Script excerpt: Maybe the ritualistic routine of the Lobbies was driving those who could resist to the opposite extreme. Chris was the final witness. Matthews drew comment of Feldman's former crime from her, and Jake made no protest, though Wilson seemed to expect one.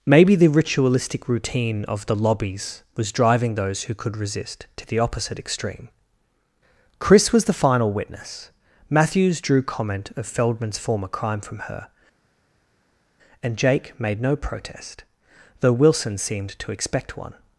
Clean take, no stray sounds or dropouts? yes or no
yes